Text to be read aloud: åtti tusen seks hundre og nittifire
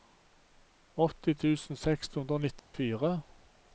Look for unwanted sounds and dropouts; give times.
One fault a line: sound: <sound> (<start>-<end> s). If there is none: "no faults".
sound: dropout (2.6-2.7 s)